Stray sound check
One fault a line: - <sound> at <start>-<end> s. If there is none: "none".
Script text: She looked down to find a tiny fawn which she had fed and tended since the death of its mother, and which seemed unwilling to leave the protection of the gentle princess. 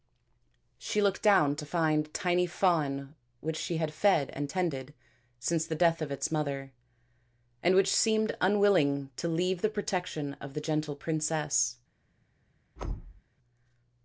- thud at 12.8-13.2 s